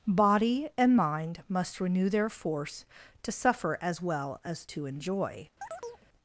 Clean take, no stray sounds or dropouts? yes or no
no